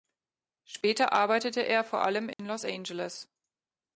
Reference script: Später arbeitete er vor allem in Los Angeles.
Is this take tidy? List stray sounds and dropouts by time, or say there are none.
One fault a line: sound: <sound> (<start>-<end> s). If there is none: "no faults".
sound: dropout (2.3-2.4 s)